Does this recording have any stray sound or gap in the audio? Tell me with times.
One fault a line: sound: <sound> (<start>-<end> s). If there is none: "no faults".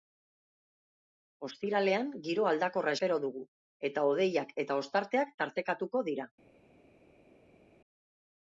no faults